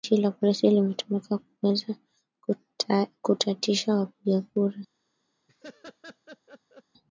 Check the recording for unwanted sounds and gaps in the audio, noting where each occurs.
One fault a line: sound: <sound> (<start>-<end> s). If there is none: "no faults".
sound: laugh (5.5-6.8 s)